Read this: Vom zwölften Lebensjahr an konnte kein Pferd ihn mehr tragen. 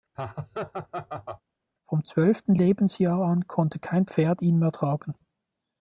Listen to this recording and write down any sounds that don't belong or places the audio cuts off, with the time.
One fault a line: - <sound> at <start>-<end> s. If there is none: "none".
- laugh at 0.1-1.4 s